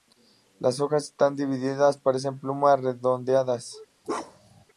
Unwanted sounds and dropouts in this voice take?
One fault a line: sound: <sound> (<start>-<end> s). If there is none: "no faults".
sound: bark (4.0-4.6 s)